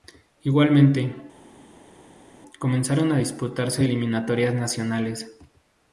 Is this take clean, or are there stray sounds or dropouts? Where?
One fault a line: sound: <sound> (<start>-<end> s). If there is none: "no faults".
no faults